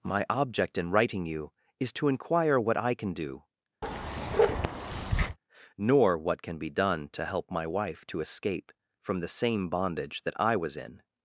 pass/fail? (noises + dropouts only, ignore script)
fail